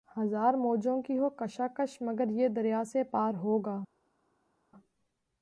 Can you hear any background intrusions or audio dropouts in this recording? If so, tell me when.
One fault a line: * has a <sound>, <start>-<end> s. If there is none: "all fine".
all fine